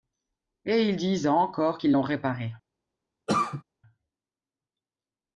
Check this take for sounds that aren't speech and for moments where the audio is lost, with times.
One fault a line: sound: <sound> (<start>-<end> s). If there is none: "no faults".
sound: cough (3.3-3.6 s)